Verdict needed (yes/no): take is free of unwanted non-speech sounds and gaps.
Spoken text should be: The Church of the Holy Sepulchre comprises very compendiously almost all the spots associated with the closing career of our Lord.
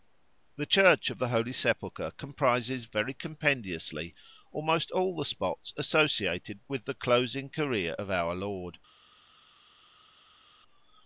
yes